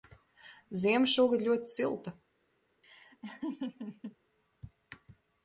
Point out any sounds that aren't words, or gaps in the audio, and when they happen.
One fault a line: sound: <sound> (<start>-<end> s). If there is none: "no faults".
sound: laugh (2.8-4.2 s)